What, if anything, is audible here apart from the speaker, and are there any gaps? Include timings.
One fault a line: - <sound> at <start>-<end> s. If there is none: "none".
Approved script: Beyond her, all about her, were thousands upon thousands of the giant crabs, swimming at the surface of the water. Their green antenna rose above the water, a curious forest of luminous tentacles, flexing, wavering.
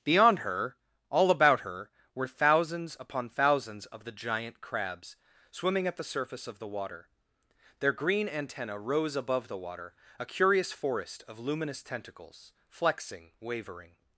none